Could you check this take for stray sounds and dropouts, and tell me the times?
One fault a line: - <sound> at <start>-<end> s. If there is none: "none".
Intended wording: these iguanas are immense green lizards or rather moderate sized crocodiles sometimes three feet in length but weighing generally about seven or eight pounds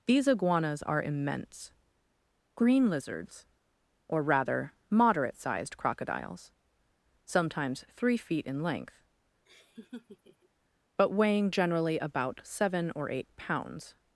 - laugh at 9.5-10.5 s